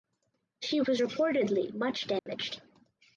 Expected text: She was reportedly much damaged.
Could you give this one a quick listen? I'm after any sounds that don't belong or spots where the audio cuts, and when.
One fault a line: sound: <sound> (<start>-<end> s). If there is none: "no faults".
sound: dropout (2.2-2.3 s)